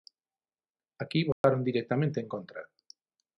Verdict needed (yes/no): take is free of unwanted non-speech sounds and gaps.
no